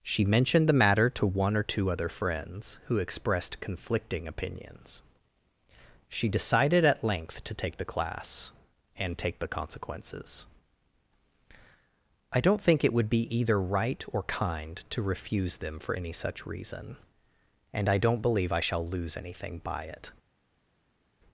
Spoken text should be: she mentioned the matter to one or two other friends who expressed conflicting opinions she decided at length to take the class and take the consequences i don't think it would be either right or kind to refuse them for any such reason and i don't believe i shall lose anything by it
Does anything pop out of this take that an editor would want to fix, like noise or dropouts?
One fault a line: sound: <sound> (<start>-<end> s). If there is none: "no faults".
no faults